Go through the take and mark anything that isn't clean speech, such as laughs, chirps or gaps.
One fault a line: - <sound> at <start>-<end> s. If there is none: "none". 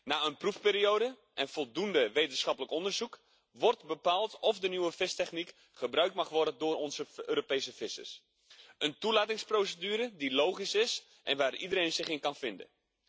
none